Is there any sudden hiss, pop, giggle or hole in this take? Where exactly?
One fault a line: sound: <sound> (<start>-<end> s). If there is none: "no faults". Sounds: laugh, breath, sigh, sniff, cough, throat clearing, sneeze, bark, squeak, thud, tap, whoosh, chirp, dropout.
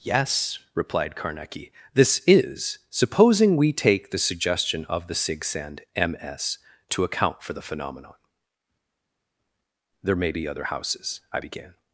no faults